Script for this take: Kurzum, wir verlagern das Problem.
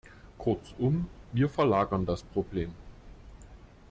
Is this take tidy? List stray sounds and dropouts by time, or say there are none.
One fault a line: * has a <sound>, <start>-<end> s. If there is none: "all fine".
all fine